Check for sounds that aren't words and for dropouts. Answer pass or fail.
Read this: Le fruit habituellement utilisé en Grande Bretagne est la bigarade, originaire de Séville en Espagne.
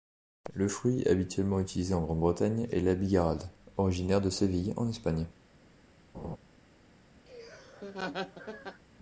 fail